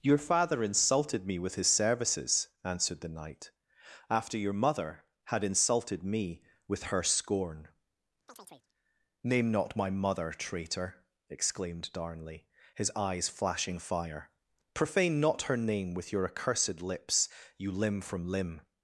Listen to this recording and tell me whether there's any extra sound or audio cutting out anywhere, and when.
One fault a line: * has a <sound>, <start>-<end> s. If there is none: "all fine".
* has a chirp, 8.3-8.7 s